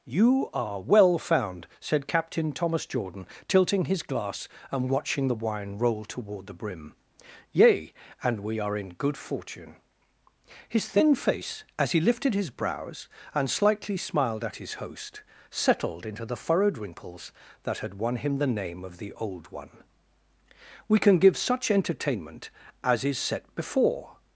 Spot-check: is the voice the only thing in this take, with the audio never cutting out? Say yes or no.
yes